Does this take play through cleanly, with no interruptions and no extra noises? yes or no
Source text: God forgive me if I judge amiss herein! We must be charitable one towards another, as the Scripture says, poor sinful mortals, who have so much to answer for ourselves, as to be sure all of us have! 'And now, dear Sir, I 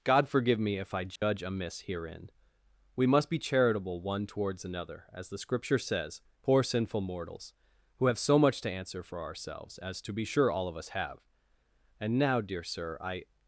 no